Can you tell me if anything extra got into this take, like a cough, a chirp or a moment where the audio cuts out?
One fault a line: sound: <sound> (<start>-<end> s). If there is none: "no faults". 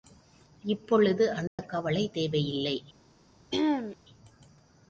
sound: dropout (1.5-1.6 s)
sound: throat clearing (3.5-4.0 s)